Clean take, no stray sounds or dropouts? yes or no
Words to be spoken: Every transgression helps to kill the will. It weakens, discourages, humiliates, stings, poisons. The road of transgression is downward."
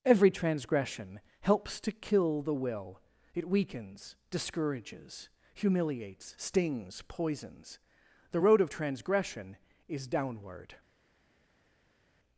yes